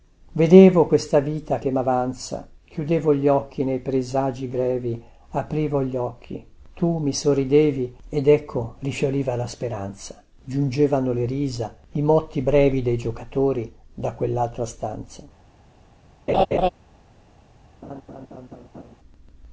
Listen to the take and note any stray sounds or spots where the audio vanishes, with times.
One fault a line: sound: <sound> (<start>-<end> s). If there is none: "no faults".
sound: laugh (16.3-16.7 s)
sound: laugh (17.8-19.0 s)